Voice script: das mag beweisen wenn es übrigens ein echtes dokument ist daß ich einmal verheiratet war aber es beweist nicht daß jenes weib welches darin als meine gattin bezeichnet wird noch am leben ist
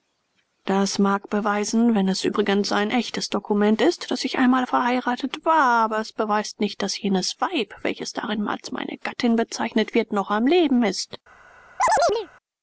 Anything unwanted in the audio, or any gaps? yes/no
yes